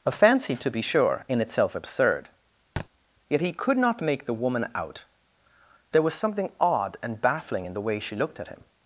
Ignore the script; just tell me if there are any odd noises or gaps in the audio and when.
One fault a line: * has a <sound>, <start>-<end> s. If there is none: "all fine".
* has a thud, 2.8-2.9 s